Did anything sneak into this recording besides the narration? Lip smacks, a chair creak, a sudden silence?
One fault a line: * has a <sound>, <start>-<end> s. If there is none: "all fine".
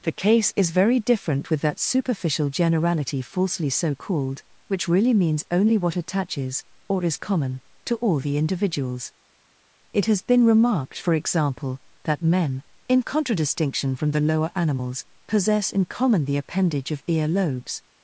all fine